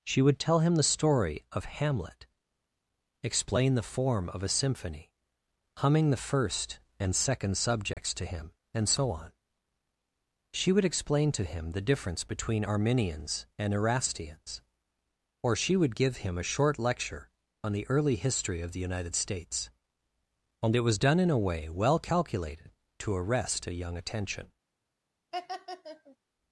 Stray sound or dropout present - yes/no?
yes